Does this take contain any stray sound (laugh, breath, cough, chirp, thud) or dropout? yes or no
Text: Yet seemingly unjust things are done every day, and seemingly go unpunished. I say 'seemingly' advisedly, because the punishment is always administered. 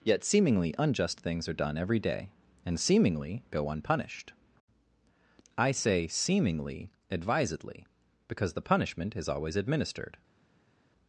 no